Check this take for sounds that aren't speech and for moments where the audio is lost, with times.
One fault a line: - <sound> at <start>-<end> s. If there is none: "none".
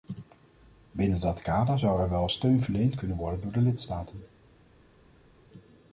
none